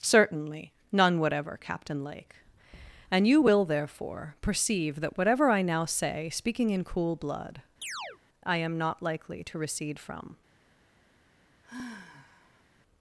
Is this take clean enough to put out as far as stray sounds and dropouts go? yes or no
no